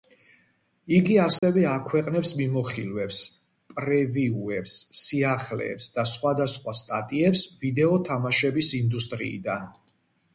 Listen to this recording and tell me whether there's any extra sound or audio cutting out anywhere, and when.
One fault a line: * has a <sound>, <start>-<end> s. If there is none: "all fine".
* has a dropout, 1.4-1.4 s